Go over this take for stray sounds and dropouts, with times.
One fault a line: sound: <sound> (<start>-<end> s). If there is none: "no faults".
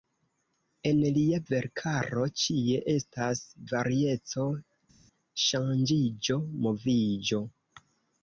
no faults